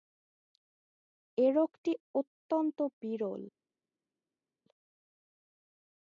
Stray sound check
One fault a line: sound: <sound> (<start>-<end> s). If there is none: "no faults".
no faults